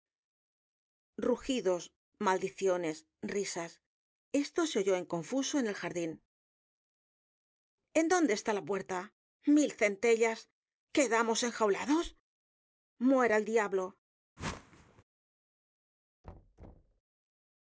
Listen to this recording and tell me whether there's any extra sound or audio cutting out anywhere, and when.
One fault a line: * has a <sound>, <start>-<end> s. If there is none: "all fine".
* has a whoosh, 14.4-15.0 s
* has a thud, 16.2-17.0 s